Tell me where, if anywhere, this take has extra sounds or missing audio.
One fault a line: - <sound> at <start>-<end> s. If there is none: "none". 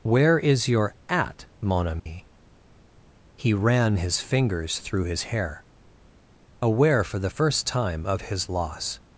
- dropout at 2.0-2.1 s